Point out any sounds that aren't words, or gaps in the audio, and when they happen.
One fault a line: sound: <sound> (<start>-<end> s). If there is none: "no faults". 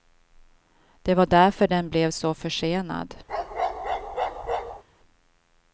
sound: bark (3.3-4.8 s)